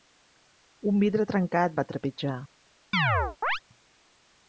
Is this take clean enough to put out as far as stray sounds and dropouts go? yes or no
no